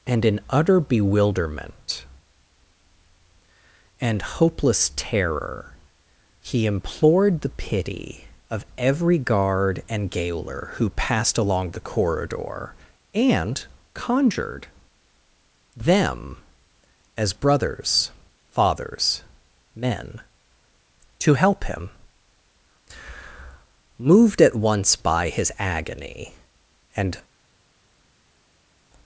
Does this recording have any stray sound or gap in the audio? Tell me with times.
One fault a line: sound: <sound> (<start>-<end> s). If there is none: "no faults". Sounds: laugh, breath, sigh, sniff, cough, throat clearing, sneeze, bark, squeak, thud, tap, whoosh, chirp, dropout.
no faults